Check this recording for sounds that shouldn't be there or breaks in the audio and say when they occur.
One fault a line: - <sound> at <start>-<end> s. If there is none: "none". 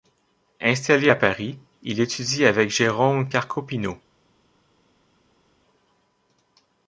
none